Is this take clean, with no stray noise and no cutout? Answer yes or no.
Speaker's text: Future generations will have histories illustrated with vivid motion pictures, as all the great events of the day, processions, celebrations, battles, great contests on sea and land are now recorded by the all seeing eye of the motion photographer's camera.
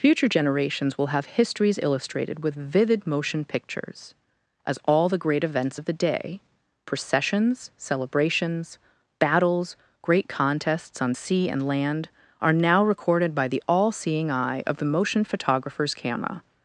yes